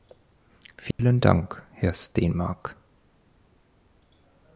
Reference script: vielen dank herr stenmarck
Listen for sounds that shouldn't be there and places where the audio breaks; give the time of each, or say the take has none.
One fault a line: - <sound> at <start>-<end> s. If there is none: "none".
- dropout at 0.9-1.0 s